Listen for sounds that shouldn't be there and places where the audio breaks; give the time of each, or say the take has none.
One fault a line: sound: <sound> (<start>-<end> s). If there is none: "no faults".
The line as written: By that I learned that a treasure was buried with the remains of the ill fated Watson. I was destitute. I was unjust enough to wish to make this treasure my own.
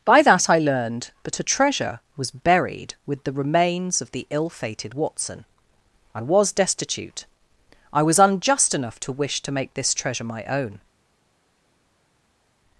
no faults